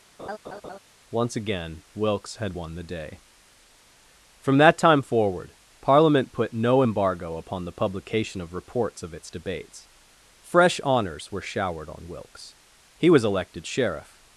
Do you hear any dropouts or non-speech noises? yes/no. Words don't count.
yes